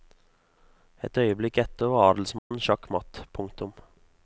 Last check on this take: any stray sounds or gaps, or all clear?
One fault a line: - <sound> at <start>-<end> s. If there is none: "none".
- dropout at 2.4-2.5 s